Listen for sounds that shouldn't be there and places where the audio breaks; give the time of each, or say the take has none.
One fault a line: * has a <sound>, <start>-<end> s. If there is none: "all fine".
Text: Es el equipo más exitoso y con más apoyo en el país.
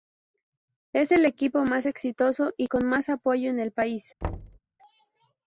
* has a thud, 4.2-4.6 s